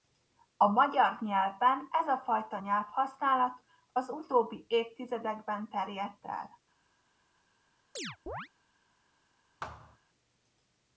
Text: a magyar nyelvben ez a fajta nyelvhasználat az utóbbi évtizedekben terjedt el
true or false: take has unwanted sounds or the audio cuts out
true